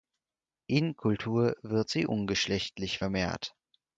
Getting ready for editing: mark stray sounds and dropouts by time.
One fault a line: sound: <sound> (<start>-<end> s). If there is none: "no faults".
no faults